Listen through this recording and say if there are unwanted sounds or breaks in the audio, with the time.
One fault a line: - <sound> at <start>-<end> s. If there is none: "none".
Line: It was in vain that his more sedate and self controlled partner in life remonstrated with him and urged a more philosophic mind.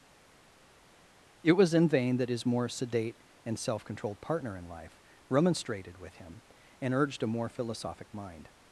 none